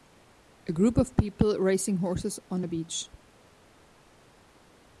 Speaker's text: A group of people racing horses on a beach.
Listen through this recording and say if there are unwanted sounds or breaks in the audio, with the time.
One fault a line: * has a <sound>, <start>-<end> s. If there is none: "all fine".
all fine